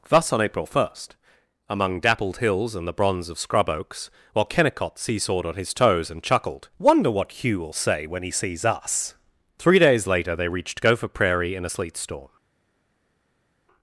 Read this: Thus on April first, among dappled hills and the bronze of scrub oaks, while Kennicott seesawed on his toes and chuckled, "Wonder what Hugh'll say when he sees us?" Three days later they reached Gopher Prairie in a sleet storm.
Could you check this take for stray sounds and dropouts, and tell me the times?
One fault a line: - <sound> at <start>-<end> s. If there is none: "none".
none